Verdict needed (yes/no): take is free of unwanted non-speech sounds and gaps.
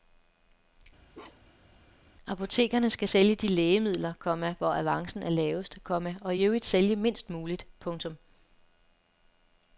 no